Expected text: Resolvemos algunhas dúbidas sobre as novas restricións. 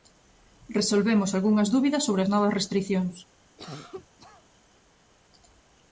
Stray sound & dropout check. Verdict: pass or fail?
fail